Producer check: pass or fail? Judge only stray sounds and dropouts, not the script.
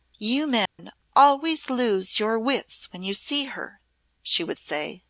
fail